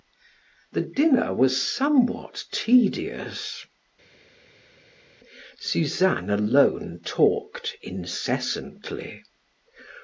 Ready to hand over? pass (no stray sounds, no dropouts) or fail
pass